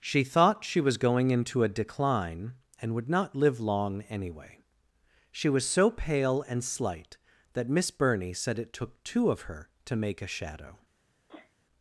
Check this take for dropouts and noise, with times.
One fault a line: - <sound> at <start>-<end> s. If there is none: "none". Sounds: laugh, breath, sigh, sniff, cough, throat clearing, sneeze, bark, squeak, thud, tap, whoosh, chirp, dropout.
- sneeze at 11.3-11.6 s